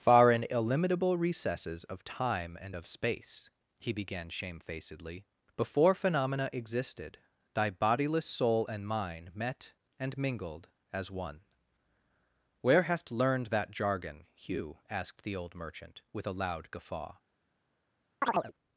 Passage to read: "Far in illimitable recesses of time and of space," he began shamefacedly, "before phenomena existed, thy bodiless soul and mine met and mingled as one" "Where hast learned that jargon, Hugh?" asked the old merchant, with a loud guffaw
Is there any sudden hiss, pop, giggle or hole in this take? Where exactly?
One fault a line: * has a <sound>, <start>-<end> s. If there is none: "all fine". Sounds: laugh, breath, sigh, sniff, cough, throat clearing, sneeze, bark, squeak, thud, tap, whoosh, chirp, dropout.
* has a chirp, 18.2-18.5 s